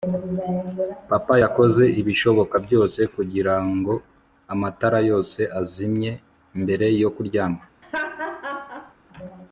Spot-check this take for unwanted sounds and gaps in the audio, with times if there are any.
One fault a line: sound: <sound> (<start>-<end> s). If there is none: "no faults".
sound: laugh (7.8-8.9 s)